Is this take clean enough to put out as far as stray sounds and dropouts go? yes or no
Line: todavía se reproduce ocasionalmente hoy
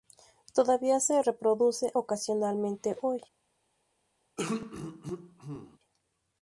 no